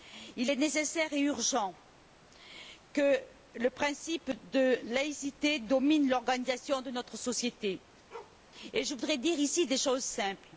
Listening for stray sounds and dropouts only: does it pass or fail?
fail